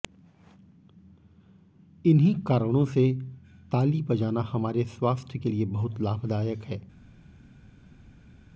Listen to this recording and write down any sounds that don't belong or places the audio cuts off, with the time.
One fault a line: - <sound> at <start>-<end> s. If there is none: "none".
none